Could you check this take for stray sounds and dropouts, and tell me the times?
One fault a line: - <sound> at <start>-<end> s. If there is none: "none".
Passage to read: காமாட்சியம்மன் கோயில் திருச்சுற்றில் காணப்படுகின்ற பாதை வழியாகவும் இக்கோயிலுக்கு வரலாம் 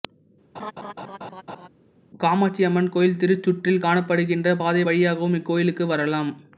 - laugh at 0.5-1.7 s